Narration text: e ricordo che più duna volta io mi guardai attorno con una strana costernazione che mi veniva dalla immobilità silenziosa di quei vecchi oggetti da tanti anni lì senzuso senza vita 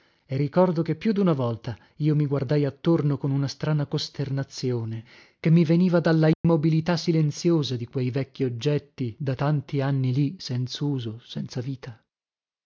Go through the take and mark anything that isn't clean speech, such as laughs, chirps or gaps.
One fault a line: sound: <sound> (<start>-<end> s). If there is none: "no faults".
sound: dropout (6.3-6.4 s)